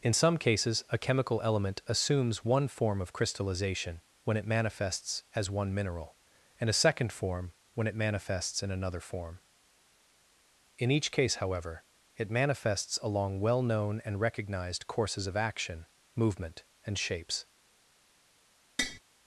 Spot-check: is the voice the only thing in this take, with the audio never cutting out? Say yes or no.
no